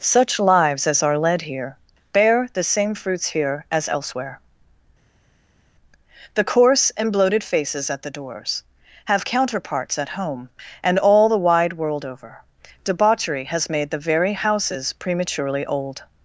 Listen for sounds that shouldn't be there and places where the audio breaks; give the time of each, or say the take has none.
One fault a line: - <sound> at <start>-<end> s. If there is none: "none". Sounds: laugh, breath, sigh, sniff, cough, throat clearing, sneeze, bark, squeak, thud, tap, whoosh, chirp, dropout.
none